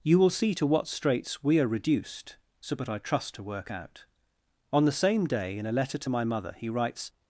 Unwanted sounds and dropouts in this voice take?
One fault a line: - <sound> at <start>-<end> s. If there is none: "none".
none